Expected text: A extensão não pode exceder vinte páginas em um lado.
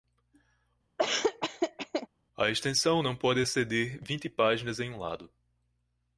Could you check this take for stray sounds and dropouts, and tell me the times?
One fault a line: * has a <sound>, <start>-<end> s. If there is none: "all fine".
* has a laugh, 1.0-2.1 s